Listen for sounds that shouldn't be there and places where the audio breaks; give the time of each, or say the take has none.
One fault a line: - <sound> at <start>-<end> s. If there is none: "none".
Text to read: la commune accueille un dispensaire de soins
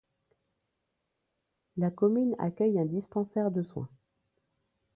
none